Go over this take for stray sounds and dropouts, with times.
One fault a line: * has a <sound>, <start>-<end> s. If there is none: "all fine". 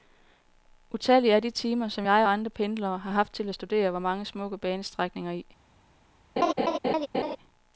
* has a laugh, 6.4-7.4 s